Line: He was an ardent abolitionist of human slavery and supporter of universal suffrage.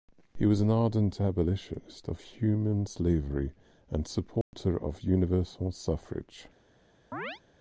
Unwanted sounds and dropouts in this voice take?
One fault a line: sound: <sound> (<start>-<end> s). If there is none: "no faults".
sound: dropout (4.4-4.5 s)
sound: chirp (7.1-7.4 s)